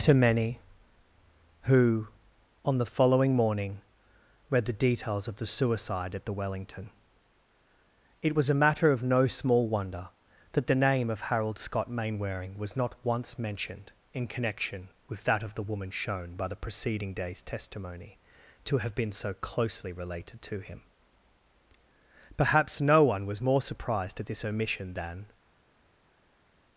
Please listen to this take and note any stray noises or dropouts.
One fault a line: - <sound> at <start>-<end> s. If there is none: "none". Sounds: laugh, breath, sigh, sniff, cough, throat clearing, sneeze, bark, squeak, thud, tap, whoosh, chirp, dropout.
none